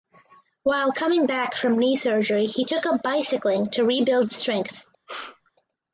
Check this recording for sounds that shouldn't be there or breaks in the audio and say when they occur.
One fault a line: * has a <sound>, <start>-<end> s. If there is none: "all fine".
* has a sneeze, 5.1-5.5 s